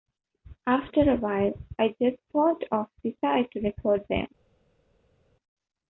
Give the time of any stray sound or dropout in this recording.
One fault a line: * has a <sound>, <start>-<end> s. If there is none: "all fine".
all fine